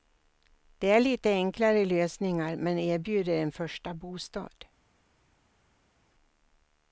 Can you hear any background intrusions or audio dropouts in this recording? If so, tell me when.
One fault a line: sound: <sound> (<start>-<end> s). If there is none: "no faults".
no faults